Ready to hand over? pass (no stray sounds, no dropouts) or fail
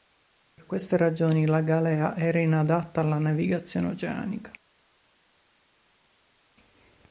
pass